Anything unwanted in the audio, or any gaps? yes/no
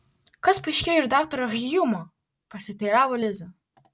no